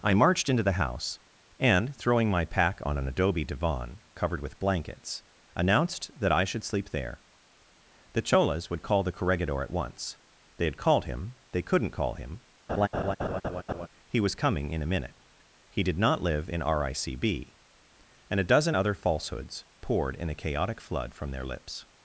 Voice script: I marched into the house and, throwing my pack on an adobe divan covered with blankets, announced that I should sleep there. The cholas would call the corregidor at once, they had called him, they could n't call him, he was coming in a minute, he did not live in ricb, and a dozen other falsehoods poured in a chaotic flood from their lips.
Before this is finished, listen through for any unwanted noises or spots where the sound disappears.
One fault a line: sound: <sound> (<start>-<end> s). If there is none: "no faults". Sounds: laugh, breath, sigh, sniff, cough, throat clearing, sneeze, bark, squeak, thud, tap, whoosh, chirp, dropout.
sound: laugh (12.7-13.9 s)